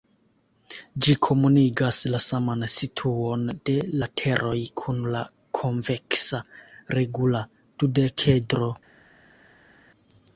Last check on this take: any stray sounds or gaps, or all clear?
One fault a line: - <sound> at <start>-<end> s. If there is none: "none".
none